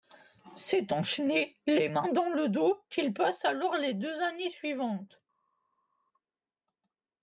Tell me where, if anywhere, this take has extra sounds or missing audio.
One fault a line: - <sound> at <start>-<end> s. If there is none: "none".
none